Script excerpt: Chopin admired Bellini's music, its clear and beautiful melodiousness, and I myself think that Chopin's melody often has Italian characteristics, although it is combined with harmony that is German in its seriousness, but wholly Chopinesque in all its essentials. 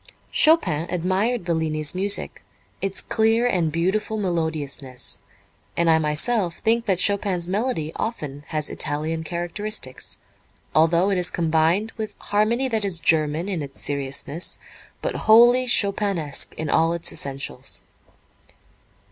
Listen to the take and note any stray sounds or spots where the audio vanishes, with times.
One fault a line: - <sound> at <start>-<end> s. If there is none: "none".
none